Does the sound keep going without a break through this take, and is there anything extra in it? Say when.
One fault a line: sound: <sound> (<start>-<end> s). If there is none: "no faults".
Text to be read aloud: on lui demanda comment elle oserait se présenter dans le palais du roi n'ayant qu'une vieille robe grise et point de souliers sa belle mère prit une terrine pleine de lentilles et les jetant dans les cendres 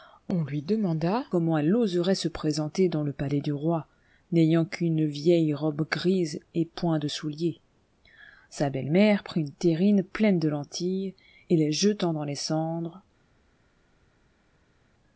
no faults